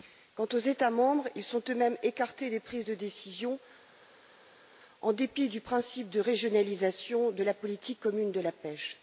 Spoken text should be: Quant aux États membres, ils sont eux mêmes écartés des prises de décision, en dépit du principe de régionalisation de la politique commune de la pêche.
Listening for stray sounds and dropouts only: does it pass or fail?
pass